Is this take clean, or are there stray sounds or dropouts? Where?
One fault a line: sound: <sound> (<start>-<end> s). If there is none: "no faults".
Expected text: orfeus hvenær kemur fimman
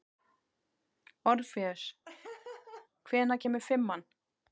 sound: laugh (2.1-2.9 s)